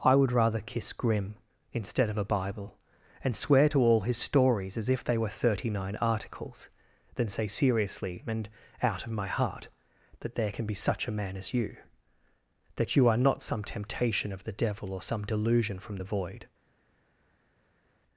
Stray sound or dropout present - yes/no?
no